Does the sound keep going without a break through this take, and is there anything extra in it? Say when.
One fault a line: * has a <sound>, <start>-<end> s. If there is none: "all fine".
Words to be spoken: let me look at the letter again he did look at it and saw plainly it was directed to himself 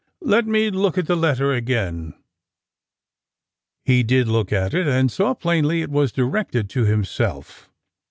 all fine